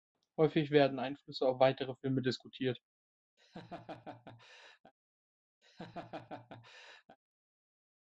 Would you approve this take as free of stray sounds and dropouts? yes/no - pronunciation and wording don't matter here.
no